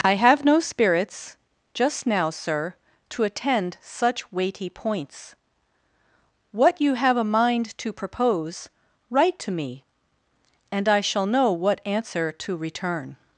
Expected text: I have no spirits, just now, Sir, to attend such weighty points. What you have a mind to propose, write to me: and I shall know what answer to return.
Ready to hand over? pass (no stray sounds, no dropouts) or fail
pass